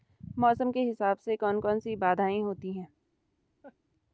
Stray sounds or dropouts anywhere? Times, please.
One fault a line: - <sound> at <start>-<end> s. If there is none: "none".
- laugh at 3.6-3.8 s